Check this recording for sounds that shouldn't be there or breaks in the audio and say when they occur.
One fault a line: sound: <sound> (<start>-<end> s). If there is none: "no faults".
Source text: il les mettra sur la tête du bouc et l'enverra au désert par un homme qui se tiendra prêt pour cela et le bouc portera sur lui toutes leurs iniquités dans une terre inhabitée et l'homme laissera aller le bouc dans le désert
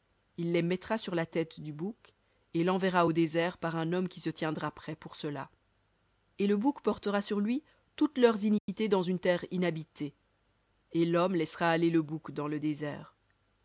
sound: dropout (8.6-8.7 s)